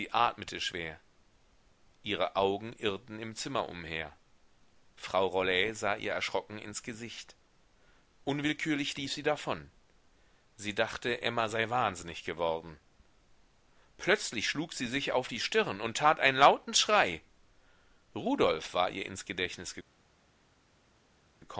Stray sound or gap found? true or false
false